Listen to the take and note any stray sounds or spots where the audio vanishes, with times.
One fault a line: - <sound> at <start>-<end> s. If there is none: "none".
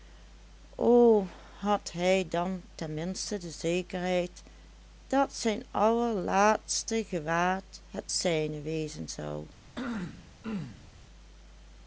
- throat clearing at 9.7-10.9 s